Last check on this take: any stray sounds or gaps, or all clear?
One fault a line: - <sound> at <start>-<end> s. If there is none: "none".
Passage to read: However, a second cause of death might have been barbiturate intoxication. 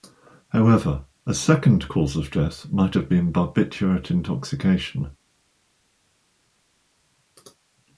none